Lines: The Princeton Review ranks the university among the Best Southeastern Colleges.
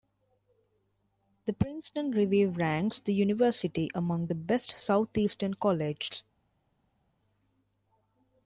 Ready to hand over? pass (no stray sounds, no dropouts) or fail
pass